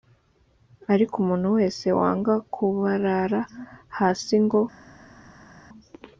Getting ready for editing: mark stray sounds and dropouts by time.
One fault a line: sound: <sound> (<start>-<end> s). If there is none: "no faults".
no faults